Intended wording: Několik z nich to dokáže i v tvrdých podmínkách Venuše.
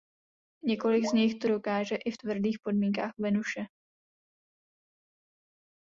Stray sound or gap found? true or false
false